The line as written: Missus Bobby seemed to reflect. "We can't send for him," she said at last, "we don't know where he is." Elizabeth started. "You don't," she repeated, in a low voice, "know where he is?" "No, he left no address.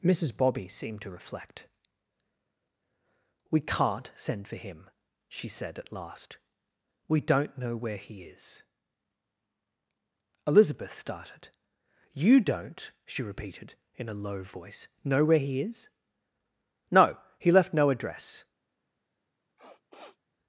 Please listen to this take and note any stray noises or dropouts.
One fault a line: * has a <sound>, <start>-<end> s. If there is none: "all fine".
* has a sniff, 19.6-20.2 s